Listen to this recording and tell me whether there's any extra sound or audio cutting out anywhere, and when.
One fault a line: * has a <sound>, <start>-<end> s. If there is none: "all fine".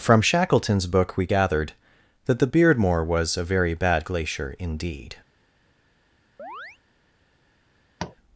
* has a chirp, 6.4-6.8 s
* has a tap, 8.0-8.2 s